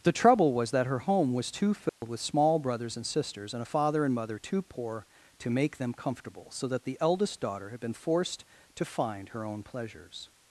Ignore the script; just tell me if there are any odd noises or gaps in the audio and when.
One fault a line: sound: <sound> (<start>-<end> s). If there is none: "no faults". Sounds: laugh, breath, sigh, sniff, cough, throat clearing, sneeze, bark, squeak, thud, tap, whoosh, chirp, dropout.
sound: dropout (1.9-2.0 s)